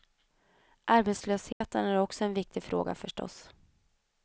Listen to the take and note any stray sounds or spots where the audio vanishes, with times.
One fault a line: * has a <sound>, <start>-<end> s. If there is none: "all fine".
* has a dropout, 1.5-1.6 s